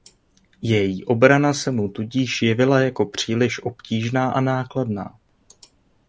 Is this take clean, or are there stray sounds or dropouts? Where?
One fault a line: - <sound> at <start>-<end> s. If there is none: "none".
none